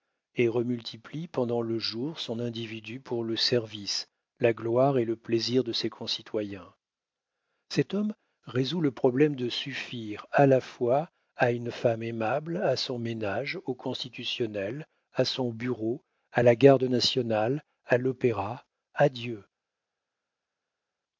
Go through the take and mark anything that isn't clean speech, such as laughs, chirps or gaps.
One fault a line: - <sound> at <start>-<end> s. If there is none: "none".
none